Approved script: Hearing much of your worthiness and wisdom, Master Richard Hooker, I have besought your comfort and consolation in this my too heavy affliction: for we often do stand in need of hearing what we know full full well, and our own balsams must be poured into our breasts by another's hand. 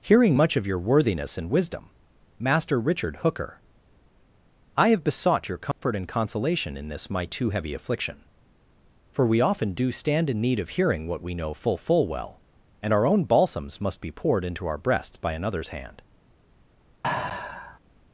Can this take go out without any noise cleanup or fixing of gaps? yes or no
no